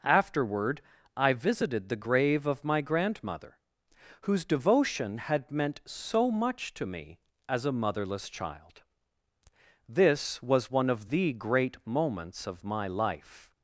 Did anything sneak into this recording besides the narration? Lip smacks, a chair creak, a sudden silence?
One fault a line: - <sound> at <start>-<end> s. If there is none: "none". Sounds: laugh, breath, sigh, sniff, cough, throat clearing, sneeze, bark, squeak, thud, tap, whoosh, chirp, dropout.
none